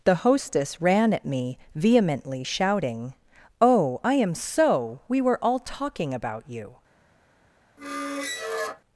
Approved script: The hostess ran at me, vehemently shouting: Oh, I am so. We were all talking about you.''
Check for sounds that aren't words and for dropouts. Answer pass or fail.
fail